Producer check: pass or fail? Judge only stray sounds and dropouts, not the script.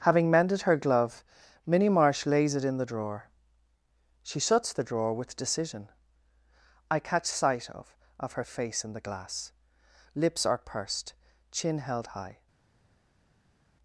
pass